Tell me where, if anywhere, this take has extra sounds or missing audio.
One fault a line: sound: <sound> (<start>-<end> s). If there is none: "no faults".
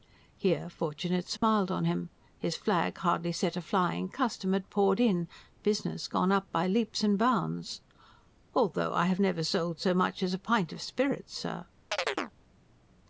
sound: dropout (1.4-1.4 s)
sound: chirp (11.9-12.3 s)